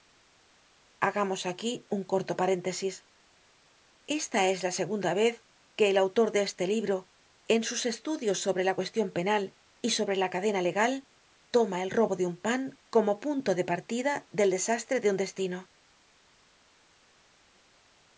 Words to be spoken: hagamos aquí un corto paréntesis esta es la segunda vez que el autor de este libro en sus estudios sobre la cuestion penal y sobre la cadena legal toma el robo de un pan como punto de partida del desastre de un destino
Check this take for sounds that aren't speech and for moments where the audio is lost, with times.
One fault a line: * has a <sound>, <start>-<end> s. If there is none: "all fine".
all fine